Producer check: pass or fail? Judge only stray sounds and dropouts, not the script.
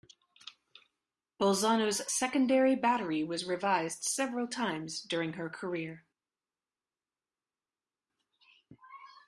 pass